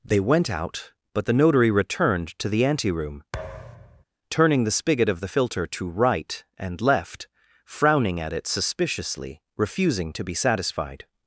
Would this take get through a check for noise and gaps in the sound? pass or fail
fail